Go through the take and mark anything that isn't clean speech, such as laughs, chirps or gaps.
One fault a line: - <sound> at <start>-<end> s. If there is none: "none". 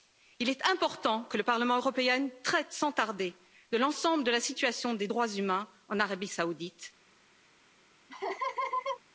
- laugh at 8.1-9.0 s